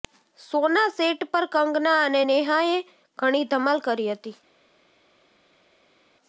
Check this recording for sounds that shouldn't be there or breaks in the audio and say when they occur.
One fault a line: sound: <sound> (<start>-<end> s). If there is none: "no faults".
no faults